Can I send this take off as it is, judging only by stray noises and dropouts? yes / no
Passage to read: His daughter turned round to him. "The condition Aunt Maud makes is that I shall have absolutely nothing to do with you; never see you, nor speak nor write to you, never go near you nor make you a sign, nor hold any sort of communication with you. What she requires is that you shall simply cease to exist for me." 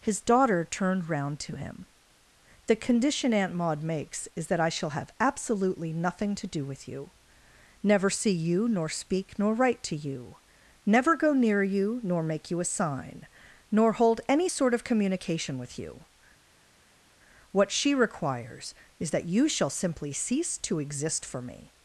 yes